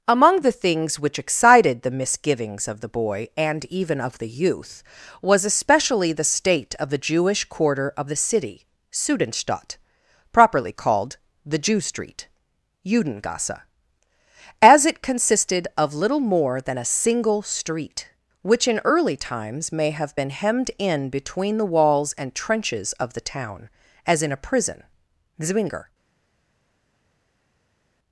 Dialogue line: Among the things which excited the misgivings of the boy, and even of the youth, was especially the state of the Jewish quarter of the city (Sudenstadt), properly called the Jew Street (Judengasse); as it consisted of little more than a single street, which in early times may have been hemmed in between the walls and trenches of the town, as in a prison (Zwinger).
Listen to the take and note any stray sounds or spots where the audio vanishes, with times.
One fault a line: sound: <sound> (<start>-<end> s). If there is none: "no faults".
no faults